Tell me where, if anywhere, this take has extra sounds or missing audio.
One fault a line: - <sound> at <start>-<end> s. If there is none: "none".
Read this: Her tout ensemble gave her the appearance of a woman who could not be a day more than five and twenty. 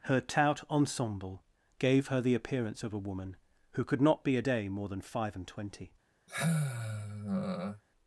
- sigh at 6.3-7.8 s